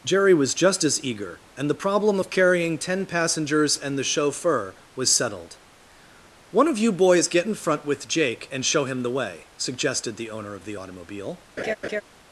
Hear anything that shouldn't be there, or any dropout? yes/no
yes